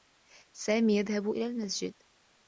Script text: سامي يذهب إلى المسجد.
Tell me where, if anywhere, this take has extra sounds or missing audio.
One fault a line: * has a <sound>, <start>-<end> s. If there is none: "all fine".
all fine